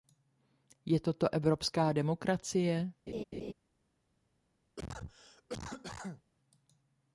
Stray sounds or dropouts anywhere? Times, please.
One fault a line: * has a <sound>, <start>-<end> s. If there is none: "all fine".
* has a laugh, 3.1-3.5 s
* has a cough, 4.8-6.2 s